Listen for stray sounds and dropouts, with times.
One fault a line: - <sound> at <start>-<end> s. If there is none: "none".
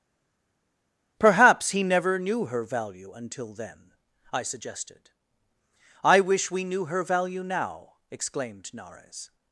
none